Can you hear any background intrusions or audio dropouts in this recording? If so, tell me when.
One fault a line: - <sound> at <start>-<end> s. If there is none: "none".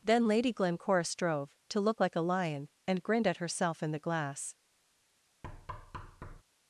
- thud at 5.4-6.4 s